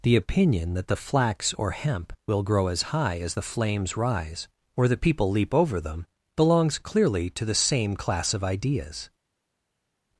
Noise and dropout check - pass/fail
pass